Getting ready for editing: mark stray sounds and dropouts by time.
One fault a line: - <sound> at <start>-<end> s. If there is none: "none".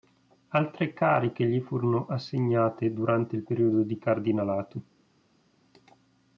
none